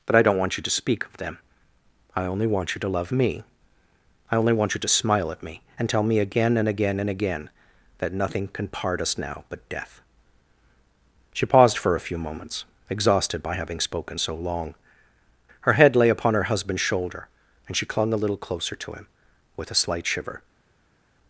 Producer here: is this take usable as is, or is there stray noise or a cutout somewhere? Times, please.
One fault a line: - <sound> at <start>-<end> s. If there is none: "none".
none